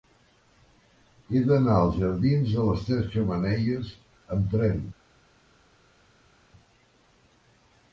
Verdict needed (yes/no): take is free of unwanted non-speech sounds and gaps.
yes